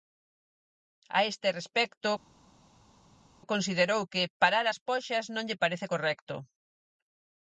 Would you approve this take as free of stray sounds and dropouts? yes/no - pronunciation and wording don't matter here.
yes